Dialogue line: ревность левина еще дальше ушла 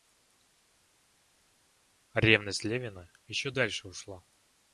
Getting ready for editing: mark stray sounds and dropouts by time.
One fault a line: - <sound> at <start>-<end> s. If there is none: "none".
none